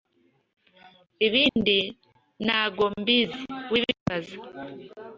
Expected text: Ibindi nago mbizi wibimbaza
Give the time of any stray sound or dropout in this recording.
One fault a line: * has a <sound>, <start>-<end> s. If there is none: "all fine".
* has a dropout, 1.5-1.6 s